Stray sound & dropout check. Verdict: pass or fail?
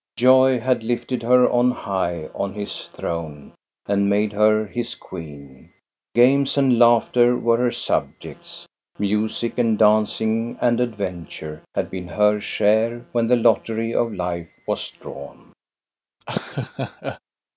fail